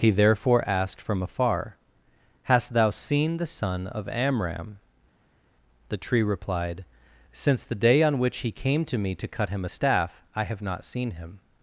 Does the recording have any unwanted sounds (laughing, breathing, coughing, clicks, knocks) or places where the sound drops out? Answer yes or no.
no